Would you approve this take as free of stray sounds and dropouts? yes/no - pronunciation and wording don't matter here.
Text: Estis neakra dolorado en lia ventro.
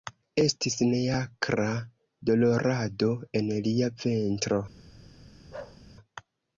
no